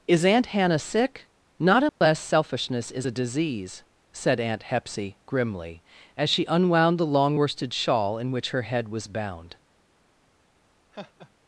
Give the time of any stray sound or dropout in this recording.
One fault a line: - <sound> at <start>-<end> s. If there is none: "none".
- dropout at 1.9-2.0 s
- laugh at 10.9-11.3 s